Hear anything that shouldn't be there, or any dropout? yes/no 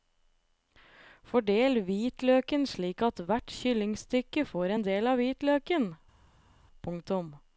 no